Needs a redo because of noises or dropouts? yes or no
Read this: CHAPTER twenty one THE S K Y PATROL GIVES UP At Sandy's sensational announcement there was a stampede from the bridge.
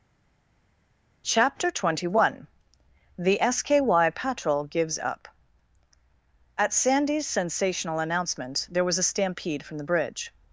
no